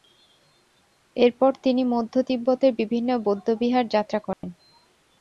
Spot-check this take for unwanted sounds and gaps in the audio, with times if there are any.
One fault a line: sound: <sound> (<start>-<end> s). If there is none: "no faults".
sound: dropout (4.3-4.4 s)